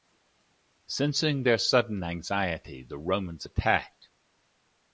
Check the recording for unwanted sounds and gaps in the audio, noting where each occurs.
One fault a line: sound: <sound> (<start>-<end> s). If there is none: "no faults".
no faults